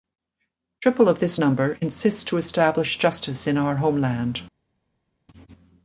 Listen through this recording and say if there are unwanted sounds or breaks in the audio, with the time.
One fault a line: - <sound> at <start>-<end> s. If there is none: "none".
none